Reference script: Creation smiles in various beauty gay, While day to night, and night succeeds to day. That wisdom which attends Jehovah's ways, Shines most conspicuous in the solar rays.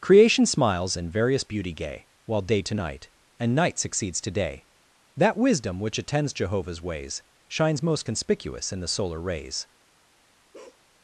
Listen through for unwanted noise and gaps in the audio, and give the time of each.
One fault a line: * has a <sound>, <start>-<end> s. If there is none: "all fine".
* has a bark, 10.5-10.8 s